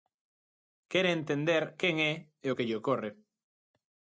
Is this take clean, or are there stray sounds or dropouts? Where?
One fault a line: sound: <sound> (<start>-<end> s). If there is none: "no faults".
no faults